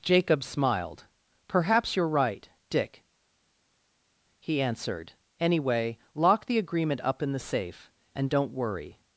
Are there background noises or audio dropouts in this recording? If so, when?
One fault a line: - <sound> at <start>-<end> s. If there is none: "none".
none